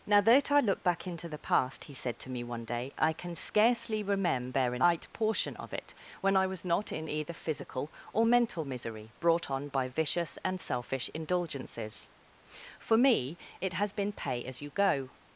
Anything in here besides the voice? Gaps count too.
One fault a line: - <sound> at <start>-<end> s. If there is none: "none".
none